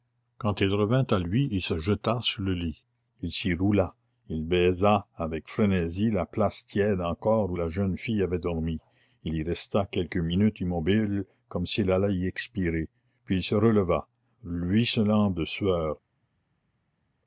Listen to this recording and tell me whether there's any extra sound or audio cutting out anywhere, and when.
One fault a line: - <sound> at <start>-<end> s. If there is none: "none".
none